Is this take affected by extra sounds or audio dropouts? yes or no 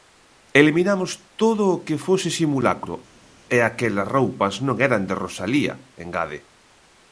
no